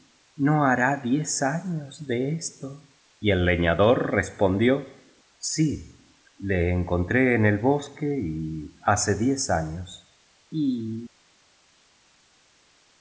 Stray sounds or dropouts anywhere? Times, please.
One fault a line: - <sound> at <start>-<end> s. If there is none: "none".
none